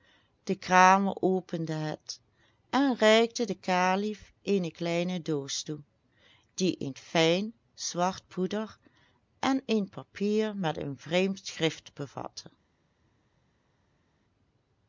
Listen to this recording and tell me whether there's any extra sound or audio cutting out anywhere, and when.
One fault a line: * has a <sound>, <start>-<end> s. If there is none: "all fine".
all fine